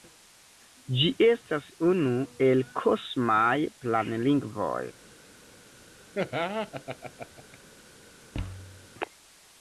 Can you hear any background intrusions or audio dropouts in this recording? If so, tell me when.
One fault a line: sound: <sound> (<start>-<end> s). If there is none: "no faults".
sound: laugh (6.1-7.6 s)
sound: thud (8.3-8.9 s)